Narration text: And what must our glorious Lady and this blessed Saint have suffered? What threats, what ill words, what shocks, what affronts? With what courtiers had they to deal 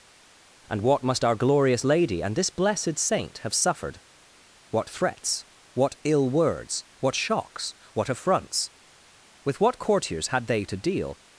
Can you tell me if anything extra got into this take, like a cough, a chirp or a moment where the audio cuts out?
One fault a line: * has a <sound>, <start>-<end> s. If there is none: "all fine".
all fine